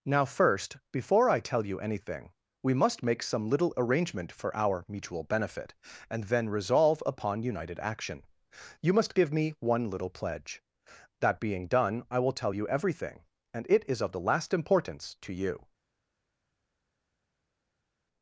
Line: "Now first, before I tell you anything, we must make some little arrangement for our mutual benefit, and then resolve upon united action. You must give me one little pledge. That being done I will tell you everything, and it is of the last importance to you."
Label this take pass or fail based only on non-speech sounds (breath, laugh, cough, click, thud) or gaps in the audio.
pass